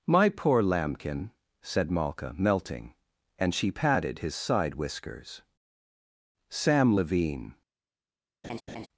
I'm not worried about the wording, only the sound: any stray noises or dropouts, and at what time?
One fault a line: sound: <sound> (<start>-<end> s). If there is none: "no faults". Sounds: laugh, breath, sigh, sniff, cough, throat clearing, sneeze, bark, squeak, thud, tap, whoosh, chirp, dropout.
sound: laugh (8.4-8.9 s)